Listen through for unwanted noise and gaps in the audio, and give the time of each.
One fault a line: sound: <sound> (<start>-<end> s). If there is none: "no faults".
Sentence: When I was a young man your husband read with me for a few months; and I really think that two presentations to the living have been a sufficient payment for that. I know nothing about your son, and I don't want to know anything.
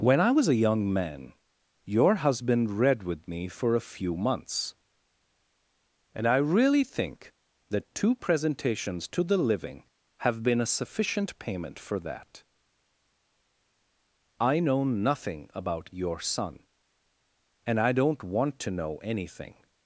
no faults